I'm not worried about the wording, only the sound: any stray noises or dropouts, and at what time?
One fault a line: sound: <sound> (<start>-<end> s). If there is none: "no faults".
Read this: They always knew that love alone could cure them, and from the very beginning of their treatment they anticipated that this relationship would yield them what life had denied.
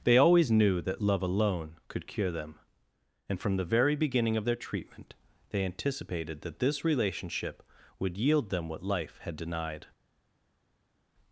no faults